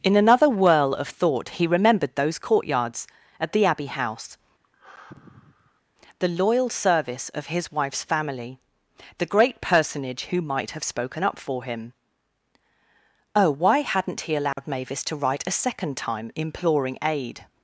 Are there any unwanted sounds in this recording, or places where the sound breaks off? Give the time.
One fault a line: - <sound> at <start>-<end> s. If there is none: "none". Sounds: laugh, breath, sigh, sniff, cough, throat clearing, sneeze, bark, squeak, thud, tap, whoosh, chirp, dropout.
- sigh at 4.6-5.8 s
- dropout at 14.5-14.6 s